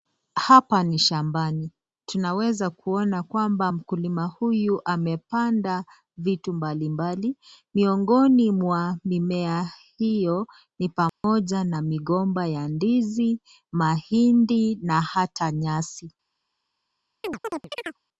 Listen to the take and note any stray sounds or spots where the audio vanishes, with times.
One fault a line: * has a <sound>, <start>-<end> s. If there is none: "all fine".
* has a dropout, 11.1-11.2 s
* has a chirp, 17.2-18.0 s